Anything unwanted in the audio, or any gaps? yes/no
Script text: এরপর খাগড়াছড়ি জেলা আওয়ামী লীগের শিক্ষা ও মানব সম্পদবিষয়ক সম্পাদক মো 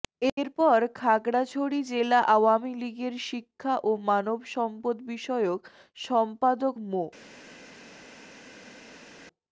no